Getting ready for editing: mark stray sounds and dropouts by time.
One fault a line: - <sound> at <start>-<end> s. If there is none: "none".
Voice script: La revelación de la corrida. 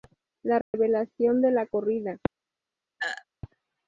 - dropout at 0.6-0.7 s
- throat clearing at 3.0-3.2 s